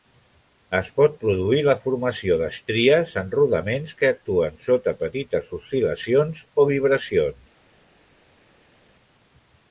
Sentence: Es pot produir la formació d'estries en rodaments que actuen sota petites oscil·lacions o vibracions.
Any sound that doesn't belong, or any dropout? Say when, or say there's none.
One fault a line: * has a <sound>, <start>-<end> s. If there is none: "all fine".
all fine